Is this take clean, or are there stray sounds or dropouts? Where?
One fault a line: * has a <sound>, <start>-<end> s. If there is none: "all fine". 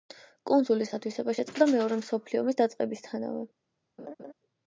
* has a laugh, 4.0-4.3 s